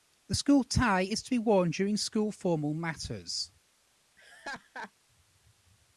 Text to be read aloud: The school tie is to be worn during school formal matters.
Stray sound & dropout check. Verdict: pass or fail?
fail